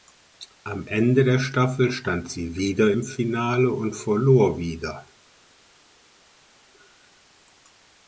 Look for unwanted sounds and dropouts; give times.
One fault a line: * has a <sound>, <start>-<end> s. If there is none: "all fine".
all fine